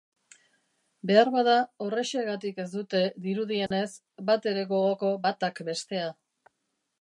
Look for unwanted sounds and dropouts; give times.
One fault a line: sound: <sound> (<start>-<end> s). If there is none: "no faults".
sound: dropout (3.7-3.7 s)